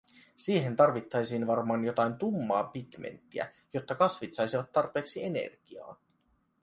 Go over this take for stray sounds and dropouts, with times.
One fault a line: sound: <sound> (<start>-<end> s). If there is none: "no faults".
no faults